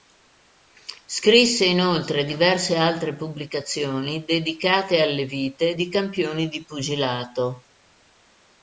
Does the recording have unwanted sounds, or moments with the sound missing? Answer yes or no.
no